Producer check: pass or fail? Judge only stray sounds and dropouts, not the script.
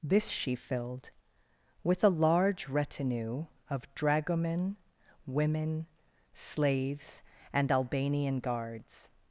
pass